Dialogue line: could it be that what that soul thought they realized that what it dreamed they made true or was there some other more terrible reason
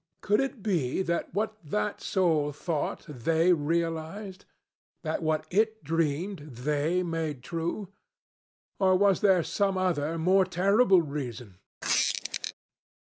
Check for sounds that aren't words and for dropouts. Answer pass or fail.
fail